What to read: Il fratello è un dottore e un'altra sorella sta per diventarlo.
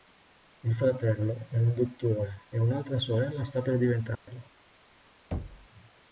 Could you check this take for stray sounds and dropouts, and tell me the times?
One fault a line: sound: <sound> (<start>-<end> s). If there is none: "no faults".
sound: dropout (4.1-4.3 s)
sound: thud (5.3-5.7 s)